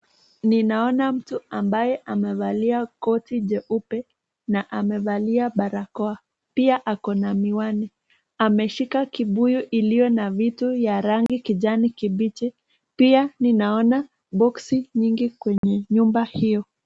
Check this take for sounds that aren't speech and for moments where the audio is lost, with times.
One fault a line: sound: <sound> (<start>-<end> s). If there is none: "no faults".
sound: dropout (11.3-11.3 s)
sound: dropout (15.6-15.6 s)